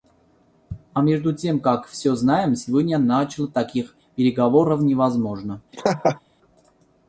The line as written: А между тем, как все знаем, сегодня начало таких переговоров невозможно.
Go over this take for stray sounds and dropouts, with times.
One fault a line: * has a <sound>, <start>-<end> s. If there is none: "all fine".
* has a laugh, 5.7-6.2 s